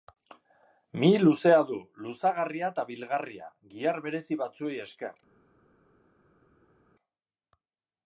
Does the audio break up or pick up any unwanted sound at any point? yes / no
no